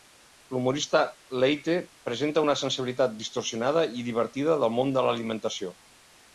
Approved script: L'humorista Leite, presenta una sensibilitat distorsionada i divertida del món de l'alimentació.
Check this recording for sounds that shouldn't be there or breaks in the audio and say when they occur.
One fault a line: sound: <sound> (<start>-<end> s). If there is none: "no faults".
no faults